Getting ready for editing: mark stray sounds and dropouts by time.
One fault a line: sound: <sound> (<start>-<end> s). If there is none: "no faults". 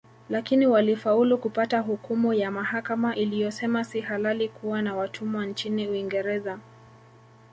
no faults